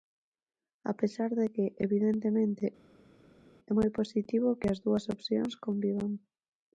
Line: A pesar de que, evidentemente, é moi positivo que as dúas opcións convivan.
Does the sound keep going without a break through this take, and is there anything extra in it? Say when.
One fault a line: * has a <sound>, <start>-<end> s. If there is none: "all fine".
all fine